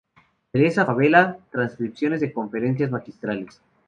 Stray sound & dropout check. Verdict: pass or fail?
pass